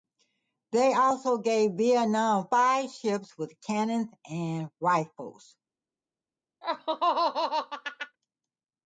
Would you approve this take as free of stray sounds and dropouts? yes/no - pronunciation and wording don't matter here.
no